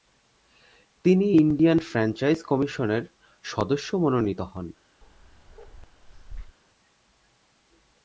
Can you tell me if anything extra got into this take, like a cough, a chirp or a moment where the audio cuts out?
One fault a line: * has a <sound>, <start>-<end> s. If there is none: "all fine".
* has a bark, 5.0-6.6 s